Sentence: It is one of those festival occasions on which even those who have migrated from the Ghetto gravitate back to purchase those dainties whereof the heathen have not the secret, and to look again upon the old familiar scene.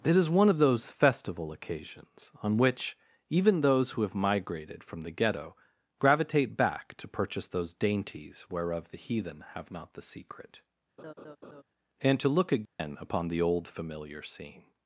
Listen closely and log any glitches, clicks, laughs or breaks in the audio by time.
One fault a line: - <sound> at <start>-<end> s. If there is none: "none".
- laugh at 11.0-11.6 s
- dropout at 12.6-12.8 s